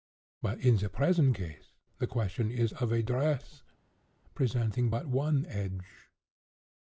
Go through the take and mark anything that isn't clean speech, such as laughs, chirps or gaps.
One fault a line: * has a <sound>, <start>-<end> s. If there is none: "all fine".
all fine